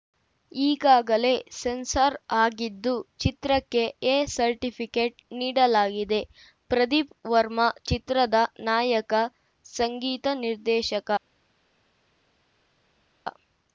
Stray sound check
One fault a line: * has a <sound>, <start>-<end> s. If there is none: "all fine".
all fine